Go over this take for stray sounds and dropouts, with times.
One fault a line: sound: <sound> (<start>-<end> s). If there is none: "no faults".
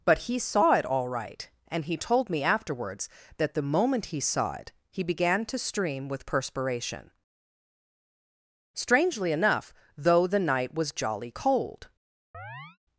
sound: chirp (12.3-12.8 s)